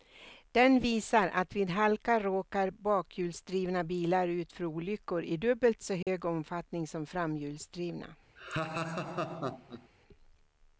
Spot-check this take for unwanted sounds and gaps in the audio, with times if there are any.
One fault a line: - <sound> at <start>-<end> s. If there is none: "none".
- dropout at 6.0-6.1 s
- laugh at 8.4-9.9 s